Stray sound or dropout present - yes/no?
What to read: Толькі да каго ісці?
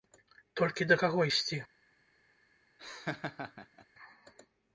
yes